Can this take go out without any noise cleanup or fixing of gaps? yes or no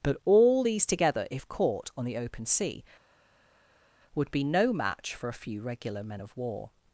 yes